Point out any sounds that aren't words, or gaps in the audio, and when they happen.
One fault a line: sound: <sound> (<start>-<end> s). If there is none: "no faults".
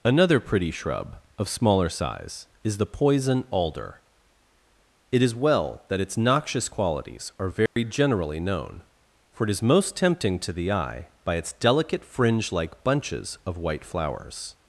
sound: dropout (7.7-7.8 s)